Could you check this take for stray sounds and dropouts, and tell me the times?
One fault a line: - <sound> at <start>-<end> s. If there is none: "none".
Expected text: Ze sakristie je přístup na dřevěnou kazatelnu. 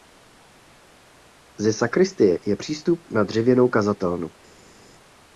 none